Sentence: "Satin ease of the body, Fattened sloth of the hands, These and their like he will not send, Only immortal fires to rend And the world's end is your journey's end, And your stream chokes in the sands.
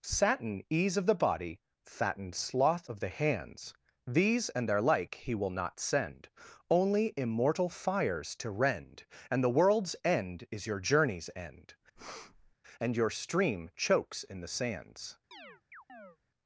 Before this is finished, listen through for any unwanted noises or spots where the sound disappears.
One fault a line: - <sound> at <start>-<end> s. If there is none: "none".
- breath at 12.0-12.6 s
- chirp at 15.3-16.2 s